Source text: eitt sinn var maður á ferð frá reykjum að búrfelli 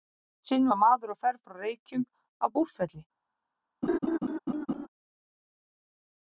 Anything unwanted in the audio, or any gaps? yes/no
yes